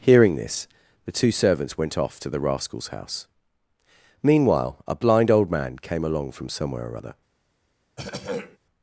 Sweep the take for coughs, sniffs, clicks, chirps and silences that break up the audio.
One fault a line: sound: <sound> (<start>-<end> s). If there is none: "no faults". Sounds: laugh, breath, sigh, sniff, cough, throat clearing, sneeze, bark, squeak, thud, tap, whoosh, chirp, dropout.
sound: throat clearing (8.0-8.6 s)